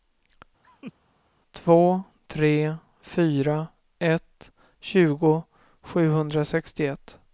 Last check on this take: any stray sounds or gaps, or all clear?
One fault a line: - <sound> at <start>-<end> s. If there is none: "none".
- laugh at 0.6-0.9 s